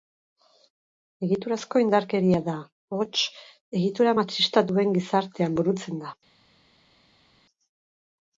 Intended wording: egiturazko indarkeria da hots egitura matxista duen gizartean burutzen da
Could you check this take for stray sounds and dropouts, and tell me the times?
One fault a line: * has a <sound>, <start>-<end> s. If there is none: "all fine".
all fine